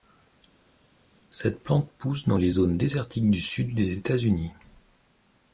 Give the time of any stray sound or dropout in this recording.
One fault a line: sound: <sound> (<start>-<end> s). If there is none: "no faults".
no faults